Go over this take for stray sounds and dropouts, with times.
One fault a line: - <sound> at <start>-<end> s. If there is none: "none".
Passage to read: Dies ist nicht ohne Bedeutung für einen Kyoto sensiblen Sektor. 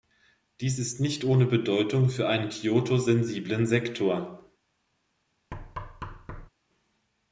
- thud at 5.5-6.5 s